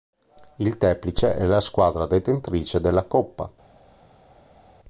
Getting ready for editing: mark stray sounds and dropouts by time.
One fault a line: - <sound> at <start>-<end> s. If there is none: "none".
none